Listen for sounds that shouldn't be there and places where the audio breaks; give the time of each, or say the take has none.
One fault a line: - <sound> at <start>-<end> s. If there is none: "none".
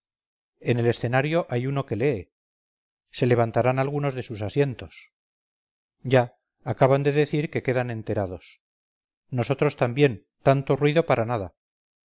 none